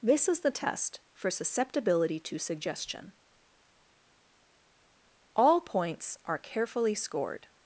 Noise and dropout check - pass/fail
pass